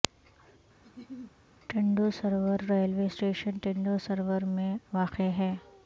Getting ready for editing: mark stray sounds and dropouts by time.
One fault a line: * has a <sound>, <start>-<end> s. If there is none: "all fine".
* has a laugh, 0.8-1.3 s